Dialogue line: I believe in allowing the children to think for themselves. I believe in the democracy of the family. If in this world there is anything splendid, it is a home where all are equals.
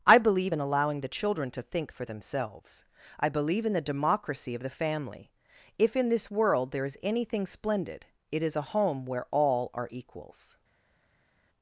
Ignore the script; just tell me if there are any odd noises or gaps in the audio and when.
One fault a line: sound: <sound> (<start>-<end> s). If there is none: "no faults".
no faults